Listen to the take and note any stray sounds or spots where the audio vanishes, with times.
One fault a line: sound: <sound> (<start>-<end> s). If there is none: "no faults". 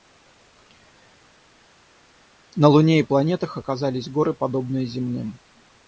no faults